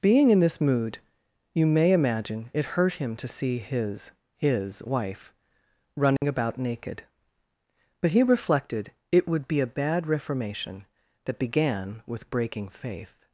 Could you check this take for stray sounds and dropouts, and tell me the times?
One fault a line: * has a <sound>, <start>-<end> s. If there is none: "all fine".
* has a dropout, 6.2-6.2 s